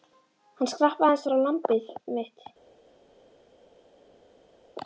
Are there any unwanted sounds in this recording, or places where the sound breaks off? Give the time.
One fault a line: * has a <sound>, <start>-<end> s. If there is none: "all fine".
all fine